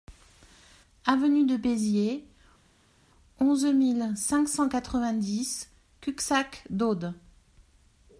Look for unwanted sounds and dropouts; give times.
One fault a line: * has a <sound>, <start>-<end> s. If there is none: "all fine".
all fine